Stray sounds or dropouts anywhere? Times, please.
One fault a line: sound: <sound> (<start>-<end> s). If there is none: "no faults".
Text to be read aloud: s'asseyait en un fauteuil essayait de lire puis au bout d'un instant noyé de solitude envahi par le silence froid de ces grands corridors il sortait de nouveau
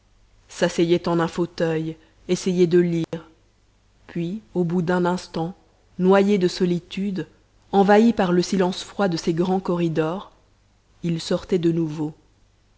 sound: dropout (3.0-3.1 s)